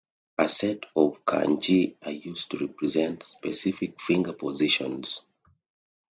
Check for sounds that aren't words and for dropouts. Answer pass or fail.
pass